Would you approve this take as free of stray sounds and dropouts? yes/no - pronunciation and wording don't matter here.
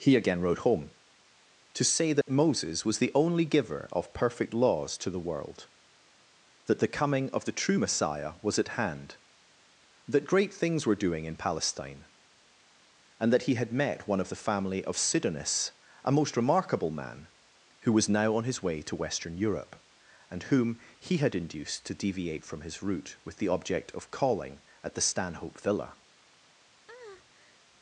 no